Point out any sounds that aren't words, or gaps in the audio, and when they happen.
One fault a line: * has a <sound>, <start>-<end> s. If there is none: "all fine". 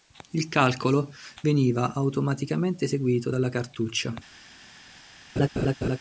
* has a laugh, 5.4-6.0 s